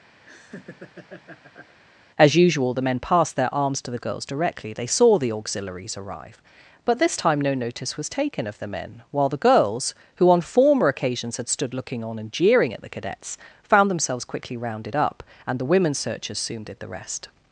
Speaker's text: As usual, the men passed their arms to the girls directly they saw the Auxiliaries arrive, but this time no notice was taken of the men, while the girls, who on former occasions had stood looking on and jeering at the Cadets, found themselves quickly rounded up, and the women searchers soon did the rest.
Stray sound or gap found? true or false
true